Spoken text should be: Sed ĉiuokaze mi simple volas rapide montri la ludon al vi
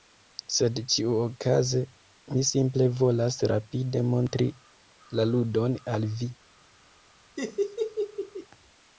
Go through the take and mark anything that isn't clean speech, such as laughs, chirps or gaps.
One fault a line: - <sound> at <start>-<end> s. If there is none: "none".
- laugh at 7.4-8.5 s